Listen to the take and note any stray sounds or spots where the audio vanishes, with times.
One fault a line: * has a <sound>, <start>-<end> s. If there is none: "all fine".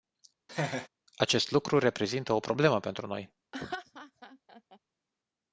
* has a laugh, 0.5-0.9 s
* has a laugh, 3.5-4.8 s